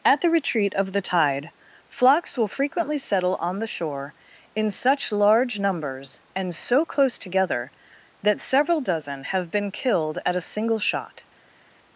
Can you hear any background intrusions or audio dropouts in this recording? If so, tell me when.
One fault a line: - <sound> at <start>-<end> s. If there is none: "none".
none